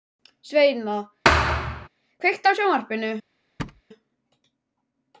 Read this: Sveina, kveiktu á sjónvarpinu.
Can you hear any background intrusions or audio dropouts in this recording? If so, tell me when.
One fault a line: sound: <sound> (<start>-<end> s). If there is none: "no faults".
sound: thud (1.2-1.9 s)
sound: thud (3.6-3.8 s)